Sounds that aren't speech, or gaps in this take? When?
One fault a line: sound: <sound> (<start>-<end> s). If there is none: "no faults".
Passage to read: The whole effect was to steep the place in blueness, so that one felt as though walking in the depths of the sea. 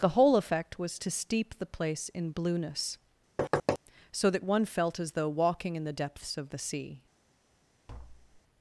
sound: thud (3.4-3.8 s)
sound: tap (7.9-8.4 s)